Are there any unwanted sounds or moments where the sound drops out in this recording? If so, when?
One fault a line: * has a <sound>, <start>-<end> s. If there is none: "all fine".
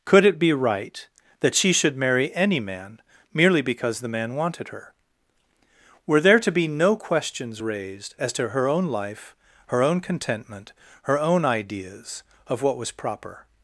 all fine